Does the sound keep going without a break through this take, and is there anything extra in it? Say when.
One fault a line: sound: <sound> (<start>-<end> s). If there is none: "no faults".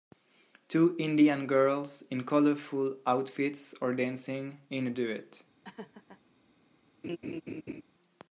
sound: laugh (5.6-6.2 s)
sound: laugh (7.0-7.8 s)